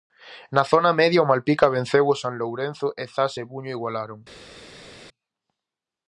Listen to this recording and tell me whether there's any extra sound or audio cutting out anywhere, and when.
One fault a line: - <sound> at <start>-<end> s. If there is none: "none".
none